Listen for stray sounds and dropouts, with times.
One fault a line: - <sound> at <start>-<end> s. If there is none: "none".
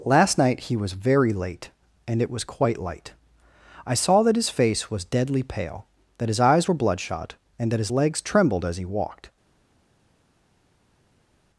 none